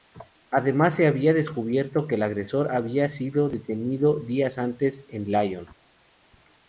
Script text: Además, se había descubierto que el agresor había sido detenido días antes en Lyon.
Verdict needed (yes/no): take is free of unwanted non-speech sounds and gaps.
yes